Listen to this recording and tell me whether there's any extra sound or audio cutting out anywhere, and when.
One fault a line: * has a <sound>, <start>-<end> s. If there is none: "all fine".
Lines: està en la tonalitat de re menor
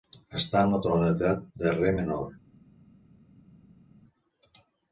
all fine